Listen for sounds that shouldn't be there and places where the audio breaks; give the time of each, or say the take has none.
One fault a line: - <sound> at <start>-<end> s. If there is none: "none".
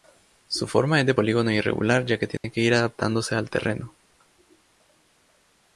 - dropout at 2.4-2.4 s